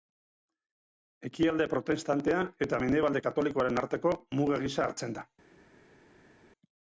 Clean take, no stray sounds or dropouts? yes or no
yes